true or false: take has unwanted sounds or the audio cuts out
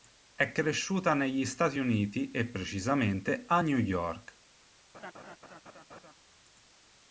true